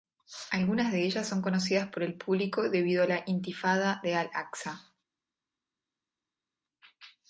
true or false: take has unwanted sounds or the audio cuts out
false